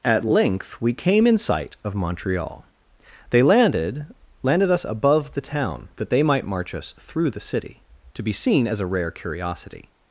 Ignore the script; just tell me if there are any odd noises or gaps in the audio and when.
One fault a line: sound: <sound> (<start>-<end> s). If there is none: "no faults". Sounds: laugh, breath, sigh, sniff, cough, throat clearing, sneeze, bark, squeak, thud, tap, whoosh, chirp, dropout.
no faults